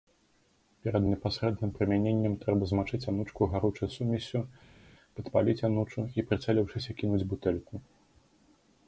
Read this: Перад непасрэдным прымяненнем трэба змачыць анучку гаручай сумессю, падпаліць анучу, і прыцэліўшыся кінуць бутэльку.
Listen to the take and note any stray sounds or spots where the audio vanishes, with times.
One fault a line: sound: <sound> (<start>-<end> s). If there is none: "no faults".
no faults